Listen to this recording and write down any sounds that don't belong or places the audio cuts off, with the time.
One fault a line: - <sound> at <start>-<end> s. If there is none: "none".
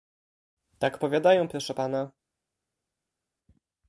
none